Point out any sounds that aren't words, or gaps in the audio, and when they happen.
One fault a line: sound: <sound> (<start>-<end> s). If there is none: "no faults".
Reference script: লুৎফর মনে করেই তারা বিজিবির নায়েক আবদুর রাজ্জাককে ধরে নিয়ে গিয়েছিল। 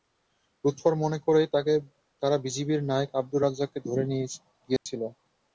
sound: dropout (4.8-4.9 s)